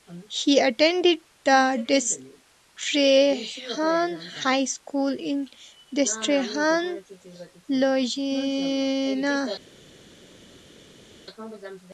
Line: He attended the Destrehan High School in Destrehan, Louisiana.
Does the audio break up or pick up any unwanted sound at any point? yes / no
no